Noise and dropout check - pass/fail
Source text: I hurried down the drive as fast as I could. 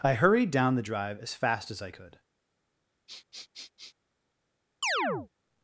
fail